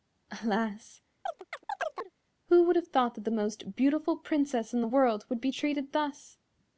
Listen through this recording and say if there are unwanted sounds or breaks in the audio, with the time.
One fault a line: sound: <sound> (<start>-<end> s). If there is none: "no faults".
sound: chirp (1.3-2.1 s)